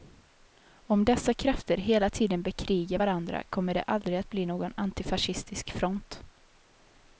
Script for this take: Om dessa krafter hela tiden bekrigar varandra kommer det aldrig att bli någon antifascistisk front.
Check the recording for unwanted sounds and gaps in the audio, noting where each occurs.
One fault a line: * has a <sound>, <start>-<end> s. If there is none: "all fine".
all fine